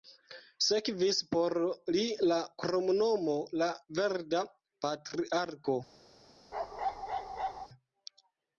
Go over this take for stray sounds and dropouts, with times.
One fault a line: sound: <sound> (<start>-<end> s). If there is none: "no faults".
sound: bark (6.5-7.7 s)